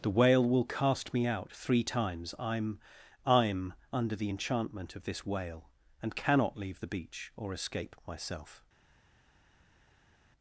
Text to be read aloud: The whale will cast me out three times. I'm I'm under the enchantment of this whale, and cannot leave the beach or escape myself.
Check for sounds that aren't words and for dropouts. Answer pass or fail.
pass